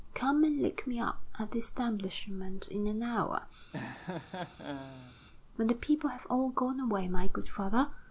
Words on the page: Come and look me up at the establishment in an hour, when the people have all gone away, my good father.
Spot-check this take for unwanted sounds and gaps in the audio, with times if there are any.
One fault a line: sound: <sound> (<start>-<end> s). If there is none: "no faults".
sound: laugh (3.7-5.2 s)